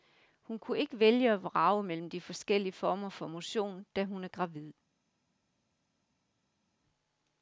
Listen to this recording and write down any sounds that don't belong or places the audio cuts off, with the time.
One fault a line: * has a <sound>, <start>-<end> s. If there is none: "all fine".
all fine